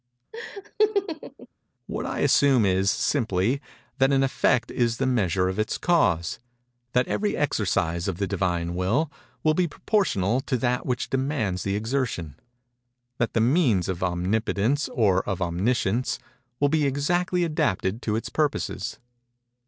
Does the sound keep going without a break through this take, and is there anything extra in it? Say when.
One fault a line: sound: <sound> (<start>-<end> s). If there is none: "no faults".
sound: laugh (0.3-1.5 s)